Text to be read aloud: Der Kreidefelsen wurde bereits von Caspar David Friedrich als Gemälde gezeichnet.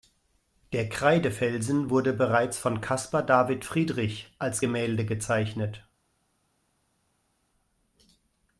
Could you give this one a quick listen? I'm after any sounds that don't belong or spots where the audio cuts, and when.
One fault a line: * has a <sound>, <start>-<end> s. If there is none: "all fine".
all fine